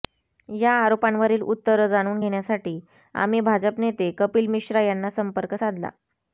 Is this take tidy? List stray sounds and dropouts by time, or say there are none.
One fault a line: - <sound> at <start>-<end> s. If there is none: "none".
none